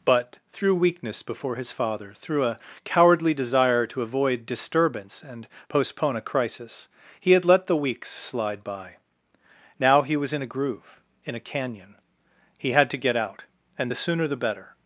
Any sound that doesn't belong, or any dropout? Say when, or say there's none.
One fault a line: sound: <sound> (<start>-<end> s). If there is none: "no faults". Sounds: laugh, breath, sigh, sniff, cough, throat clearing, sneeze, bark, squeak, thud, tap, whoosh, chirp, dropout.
no faults